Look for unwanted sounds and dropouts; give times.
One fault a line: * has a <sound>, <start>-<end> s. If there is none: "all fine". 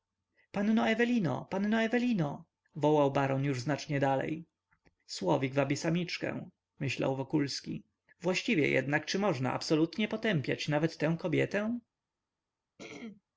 * has a throat clearing, 12.8-13.2 s